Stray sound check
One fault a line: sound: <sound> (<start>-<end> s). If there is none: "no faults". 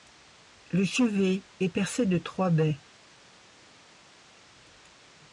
no faults